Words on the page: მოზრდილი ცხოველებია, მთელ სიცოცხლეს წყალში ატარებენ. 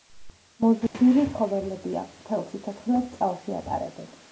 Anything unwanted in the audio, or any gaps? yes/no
yes